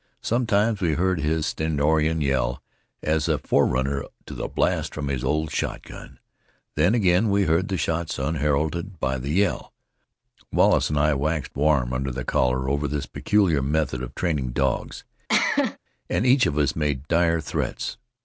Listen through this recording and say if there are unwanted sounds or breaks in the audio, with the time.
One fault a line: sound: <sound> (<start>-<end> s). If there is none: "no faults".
sound: cough (15.3-15.8 s)